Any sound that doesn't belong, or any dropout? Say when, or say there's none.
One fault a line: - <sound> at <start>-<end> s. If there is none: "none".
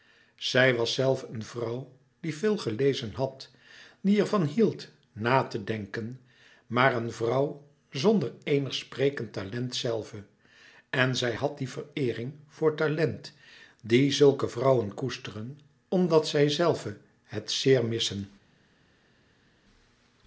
none